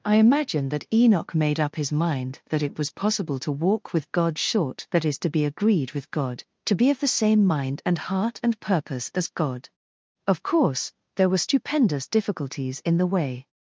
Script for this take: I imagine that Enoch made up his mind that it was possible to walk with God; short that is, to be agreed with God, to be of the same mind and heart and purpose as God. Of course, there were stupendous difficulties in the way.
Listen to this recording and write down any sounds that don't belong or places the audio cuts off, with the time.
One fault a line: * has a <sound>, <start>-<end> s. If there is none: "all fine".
all fine